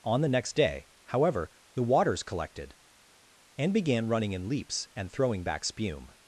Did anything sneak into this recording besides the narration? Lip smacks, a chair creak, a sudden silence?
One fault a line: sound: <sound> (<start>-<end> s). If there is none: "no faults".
no faults